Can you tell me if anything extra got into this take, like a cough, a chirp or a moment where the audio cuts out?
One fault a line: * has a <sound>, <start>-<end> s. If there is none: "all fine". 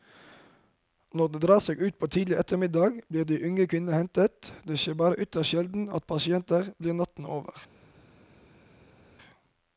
all fine